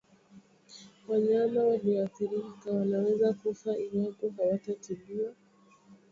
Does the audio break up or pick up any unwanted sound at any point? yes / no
no